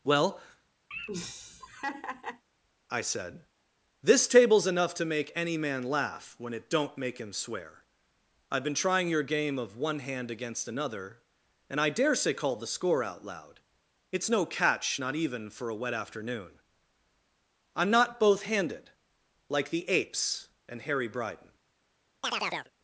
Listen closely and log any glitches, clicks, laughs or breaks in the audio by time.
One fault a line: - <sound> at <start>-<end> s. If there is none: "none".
- laugh at 0.9-2.4 s
- chirp at 22.2-22.7 s